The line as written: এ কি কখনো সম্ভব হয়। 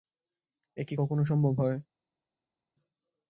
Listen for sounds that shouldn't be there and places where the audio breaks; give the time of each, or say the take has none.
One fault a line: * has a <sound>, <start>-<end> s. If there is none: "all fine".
all fine